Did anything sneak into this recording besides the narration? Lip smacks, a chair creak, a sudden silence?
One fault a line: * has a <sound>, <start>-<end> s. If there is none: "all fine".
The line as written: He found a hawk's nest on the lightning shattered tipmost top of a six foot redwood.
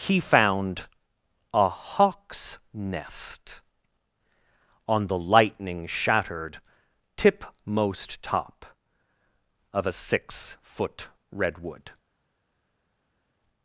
all fine